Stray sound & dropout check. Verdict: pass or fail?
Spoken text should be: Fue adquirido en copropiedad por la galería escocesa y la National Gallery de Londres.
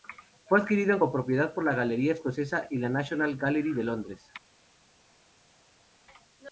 pass